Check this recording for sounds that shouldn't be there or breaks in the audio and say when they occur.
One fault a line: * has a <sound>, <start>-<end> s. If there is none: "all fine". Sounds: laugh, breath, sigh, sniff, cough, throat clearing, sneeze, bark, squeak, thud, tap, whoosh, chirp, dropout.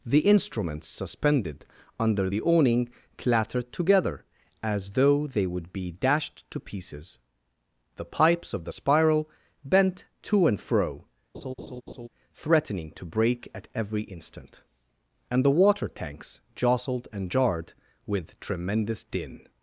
* has a laugh, 11.3-12.1 s